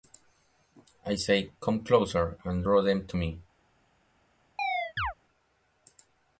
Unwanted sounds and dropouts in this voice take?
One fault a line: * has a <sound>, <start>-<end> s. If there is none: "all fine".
* has a chirp, 4.6-5.1 s